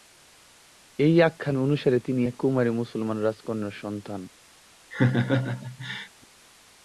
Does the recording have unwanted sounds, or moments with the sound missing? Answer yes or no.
yes